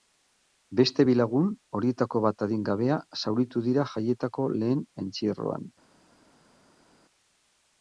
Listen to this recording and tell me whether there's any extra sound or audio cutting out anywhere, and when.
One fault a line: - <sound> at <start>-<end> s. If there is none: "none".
none